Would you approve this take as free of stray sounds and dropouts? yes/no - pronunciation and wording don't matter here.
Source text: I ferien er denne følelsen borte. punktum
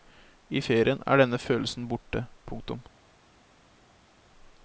yes